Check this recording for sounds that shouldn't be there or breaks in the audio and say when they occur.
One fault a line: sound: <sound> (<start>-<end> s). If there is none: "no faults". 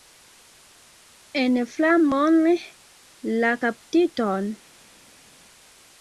no faults